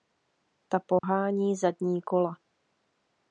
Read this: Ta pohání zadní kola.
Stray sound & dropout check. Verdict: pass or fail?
fail